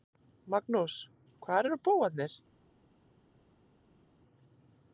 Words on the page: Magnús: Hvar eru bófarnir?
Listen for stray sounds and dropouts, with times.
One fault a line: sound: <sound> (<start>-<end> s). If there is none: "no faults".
no faults